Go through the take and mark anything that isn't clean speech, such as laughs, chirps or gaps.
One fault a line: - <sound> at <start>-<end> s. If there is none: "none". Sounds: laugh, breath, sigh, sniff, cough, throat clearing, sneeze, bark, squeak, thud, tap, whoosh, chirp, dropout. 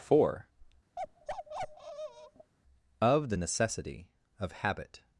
- bark at 1.0-2.5 s